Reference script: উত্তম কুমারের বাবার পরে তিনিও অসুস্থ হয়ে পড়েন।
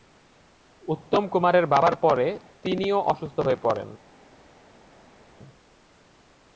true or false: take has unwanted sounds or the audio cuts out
false